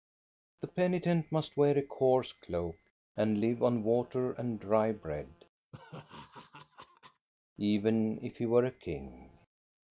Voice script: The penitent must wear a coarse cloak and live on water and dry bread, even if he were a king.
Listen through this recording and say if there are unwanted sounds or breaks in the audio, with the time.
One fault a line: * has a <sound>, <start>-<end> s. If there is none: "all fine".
* has a laugh, 5.7-7.3 s